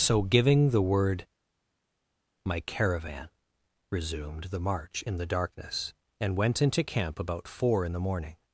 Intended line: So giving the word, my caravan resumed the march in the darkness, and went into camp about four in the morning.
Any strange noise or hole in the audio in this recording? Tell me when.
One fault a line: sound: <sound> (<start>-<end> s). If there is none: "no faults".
no faults